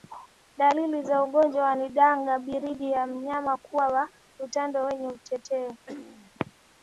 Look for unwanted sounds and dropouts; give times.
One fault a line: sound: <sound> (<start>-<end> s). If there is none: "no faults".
sound: throat clearing (5.9-6.3 s)